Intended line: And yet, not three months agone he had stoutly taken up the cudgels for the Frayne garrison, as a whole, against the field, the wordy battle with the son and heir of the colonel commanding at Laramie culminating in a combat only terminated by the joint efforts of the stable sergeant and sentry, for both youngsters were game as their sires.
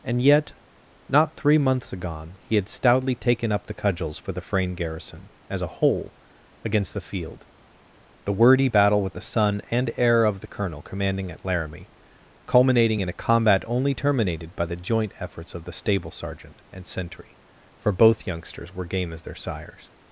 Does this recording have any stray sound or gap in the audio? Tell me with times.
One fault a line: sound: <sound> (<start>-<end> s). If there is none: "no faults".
no faults